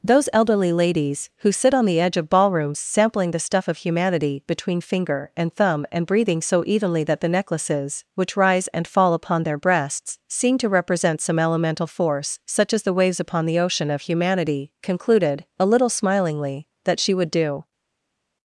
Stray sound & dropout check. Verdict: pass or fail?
pass